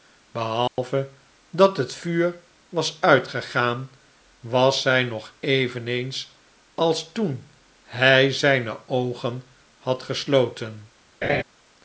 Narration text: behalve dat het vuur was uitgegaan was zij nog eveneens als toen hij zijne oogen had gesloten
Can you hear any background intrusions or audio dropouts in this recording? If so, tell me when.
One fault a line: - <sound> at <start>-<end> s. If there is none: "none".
- dropout at 0.7-0.8 s
- laugh at 11.2-11.4 s